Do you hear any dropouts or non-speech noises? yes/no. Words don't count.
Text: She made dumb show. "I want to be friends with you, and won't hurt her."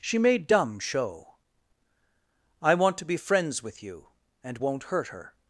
no